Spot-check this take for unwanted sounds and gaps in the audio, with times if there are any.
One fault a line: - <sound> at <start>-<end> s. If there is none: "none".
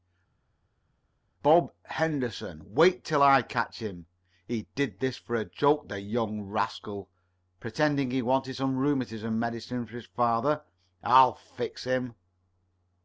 none